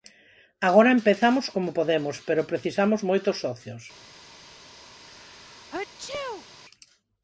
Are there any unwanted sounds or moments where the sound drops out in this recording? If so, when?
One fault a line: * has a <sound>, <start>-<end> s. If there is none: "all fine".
* has a sneeze, 5.0-6.5 s